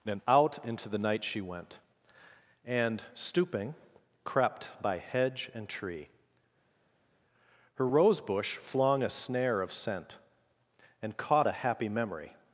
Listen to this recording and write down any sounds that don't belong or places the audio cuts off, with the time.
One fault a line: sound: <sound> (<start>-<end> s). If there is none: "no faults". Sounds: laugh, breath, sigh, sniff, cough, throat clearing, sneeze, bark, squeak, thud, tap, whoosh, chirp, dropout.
no faults